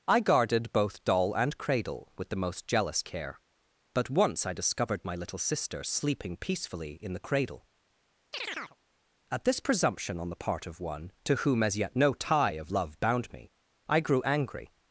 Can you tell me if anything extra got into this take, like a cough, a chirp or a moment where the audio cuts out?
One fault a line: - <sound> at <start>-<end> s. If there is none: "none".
- chirp at 8.3-8.8 s